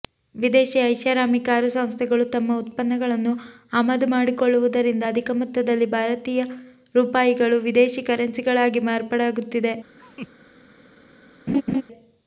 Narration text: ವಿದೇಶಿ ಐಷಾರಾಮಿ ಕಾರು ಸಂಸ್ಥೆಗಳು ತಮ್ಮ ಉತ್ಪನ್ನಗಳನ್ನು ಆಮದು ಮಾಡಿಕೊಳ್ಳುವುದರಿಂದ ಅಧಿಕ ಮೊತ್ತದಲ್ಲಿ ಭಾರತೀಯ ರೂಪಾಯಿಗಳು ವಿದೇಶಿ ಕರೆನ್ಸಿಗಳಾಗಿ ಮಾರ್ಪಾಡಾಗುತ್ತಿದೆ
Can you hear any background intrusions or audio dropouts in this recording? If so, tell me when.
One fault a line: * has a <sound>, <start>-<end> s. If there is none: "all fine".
* has a laugh, 10.0-10.3 s
* has a laugh, 11.5-11.8 s